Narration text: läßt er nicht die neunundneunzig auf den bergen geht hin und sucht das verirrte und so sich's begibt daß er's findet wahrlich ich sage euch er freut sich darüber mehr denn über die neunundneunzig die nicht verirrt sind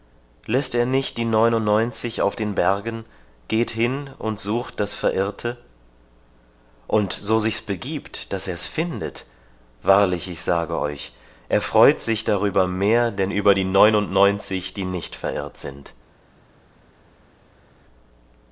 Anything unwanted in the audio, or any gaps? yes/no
no